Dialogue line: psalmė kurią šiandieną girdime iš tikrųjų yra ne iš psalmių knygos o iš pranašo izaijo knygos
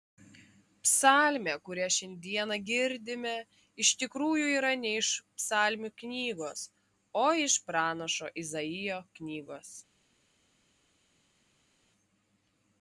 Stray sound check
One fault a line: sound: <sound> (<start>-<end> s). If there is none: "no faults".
no faults